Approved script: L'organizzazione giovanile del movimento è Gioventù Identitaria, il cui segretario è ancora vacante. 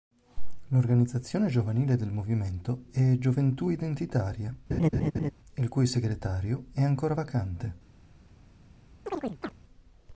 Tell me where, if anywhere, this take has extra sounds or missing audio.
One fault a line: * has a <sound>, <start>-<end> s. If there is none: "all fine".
* has a laugh, 4.7-5.3 s
* has a chirp, 9.1-9.5 s